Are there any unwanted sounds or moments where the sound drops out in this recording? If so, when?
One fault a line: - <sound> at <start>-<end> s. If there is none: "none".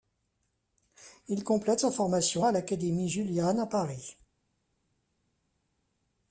none